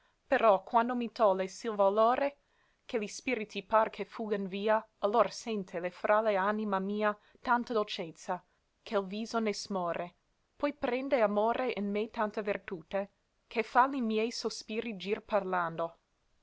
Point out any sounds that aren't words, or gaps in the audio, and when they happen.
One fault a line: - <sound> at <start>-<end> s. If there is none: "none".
none